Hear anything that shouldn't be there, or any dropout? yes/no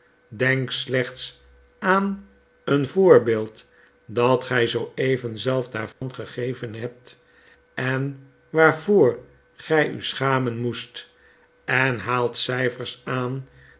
yes